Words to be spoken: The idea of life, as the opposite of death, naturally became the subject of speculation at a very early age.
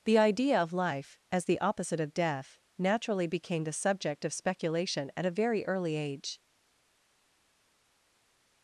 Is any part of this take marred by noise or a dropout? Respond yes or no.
no